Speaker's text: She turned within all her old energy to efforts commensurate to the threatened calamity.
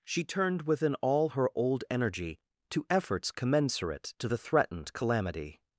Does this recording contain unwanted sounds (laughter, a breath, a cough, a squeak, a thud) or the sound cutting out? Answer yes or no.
no